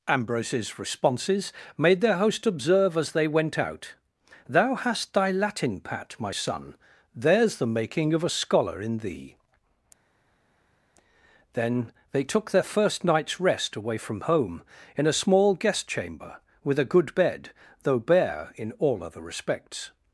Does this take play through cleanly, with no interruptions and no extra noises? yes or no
yes